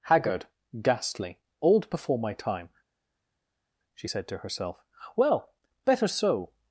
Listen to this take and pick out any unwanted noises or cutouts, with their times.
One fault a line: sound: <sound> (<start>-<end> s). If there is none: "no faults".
no faults